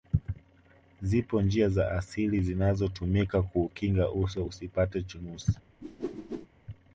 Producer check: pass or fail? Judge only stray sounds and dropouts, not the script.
fail